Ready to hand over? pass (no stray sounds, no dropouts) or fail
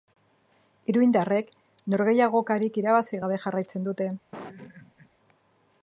fail